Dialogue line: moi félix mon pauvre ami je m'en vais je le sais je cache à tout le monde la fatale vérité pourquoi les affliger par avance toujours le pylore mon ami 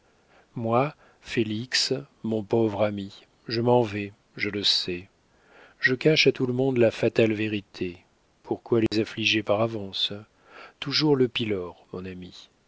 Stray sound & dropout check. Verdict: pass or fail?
fail